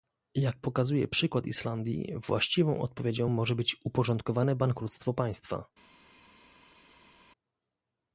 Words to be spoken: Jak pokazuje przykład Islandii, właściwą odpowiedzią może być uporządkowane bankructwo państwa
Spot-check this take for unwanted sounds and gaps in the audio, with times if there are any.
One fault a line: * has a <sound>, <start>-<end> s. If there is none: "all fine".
all fine